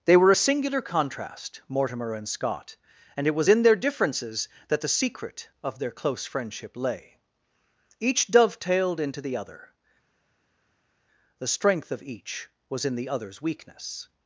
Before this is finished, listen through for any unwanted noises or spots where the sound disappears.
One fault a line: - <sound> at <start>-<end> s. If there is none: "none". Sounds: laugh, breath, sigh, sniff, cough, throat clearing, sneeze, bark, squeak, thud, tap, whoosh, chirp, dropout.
none